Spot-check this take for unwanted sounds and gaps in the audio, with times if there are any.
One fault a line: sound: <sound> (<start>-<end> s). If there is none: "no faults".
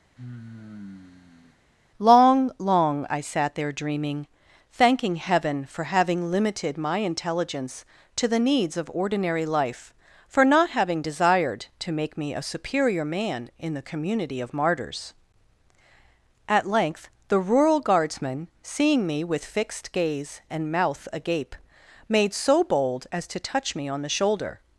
sound: sigh (0.2-1.6 s)